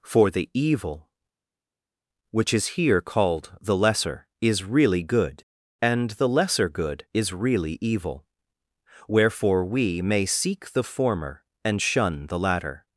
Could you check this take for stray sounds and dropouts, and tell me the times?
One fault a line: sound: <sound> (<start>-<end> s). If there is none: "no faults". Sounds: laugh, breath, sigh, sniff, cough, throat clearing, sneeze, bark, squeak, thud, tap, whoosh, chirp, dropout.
no faults